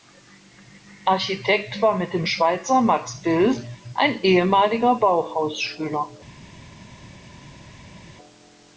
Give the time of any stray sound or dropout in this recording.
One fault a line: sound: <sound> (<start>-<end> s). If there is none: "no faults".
no faults